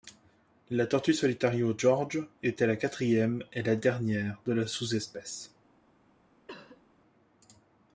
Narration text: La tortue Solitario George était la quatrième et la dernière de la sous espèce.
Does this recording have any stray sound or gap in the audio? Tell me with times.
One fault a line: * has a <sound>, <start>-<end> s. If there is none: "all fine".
* has a cough, 6.5-6.8 s